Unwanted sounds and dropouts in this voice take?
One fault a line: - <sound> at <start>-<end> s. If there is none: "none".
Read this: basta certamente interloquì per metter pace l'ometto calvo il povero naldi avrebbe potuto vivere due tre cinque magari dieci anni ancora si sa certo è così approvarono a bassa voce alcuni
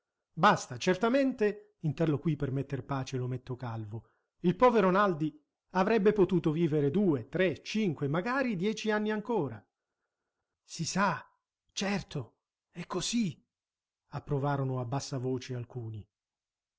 none